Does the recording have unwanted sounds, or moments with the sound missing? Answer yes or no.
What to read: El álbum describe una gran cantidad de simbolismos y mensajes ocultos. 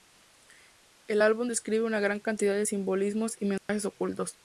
yes